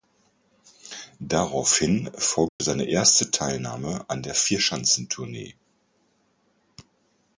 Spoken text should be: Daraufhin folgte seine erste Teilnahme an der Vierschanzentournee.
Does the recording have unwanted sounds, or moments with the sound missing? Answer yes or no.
yes